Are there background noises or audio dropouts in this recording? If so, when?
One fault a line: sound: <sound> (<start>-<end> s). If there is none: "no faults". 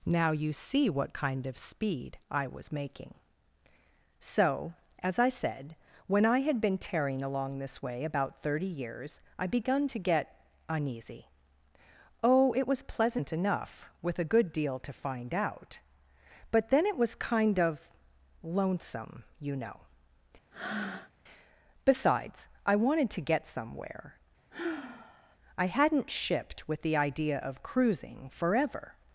sound: breath (20.5-21.1 s)
sound: sigh (24.5-25.4 s)